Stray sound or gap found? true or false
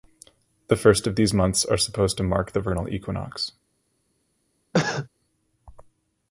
true